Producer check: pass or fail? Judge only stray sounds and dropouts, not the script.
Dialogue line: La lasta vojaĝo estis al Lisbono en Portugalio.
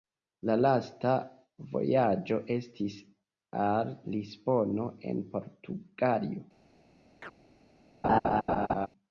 fail